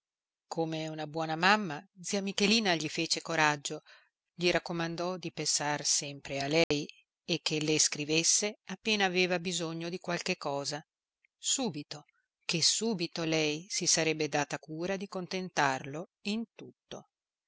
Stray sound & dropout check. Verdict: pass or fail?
fail